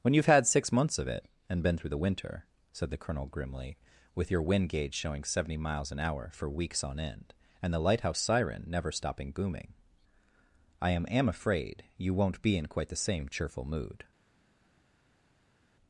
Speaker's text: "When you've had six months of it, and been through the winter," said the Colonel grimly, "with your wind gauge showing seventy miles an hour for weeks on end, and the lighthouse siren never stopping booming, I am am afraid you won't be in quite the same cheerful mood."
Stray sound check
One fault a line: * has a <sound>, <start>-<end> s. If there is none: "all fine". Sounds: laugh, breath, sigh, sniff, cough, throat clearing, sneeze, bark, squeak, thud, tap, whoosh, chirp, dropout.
all fine